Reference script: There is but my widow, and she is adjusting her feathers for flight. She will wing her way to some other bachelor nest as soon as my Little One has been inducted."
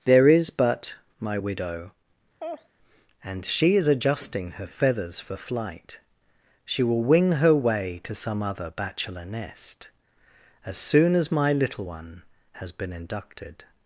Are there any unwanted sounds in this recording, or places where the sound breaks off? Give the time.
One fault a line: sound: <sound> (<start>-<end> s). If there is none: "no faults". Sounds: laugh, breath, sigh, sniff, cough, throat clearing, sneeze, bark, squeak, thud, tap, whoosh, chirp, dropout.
sound: laugh (2.4-2.7 s)